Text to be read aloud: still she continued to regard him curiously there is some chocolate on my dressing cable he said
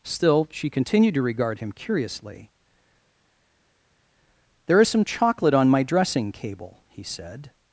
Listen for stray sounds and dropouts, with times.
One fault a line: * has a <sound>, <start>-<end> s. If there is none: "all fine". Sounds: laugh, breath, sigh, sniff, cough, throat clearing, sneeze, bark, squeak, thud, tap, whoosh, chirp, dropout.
all fine